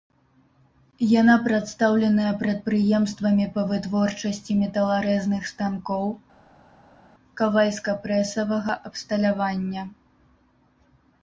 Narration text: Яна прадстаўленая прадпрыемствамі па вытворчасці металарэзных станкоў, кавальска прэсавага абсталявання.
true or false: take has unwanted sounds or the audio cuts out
false